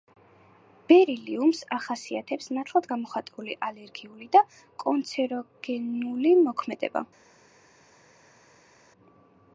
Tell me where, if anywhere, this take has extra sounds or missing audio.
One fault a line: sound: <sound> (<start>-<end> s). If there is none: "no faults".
no faults